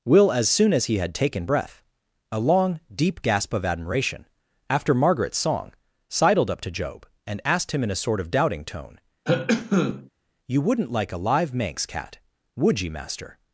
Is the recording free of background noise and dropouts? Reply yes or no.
no